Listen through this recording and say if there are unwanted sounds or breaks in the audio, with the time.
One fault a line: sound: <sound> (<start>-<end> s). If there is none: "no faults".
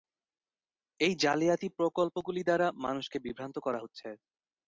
no faults